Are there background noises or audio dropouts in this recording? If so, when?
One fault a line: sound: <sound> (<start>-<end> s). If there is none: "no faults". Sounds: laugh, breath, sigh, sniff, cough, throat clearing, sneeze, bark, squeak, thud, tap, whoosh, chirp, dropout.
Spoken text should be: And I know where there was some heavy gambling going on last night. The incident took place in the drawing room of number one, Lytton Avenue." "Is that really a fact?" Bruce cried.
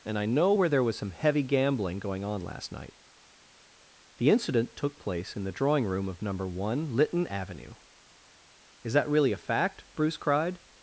no faults